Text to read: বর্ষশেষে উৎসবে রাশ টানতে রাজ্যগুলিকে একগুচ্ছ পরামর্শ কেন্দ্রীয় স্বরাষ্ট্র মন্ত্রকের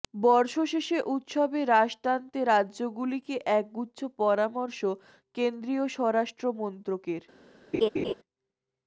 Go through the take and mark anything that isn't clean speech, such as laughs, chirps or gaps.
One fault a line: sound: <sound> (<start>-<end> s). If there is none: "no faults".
sound: laugh (7.7-8.1 s)